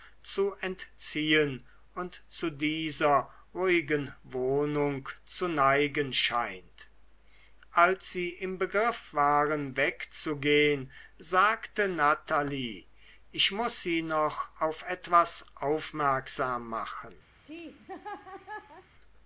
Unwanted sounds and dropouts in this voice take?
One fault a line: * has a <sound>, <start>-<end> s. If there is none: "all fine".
* has a laugh, 17.4-18.9 s